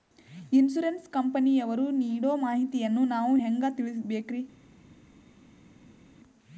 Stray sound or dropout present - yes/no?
no